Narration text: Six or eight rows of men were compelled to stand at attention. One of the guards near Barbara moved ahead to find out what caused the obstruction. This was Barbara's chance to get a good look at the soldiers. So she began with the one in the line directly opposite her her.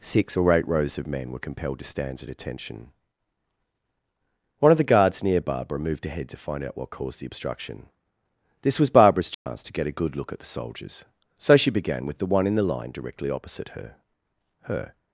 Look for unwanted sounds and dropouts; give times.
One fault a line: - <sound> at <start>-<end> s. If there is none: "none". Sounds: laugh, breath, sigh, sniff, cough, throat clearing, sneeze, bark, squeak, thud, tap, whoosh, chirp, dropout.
- dropout at 9.3-9.5 s